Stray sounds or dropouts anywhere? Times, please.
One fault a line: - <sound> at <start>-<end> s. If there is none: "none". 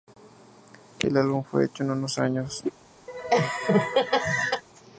- laugh at 3.1-4.6 s